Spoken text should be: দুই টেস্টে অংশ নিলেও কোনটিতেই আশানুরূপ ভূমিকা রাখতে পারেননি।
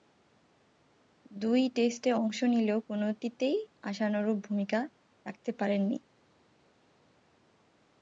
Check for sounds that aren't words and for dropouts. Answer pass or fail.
pass